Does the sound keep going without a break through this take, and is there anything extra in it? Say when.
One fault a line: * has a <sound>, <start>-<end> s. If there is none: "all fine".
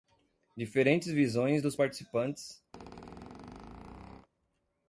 * has a squeak, 2.7-4.3 s